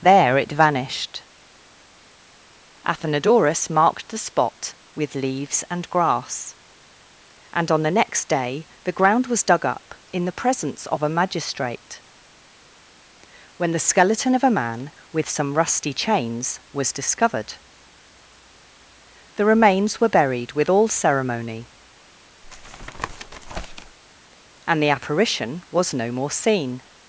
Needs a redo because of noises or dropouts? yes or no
yes